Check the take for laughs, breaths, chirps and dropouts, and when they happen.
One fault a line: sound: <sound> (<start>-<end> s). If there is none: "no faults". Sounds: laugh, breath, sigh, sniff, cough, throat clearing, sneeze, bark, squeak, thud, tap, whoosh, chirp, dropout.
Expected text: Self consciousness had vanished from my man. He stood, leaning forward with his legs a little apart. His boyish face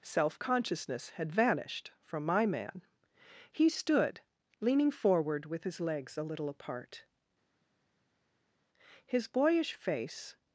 no faults